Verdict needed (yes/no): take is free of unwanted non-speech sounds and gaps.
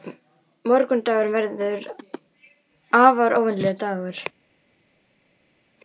yes